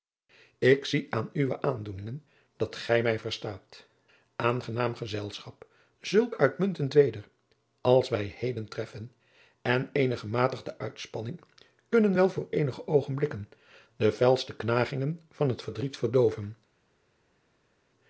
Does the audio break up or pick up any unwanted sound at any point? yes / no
no